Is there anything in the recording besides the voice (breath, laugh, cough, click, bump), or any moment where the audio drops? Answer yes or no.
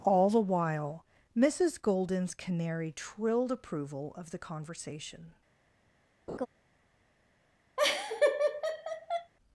yes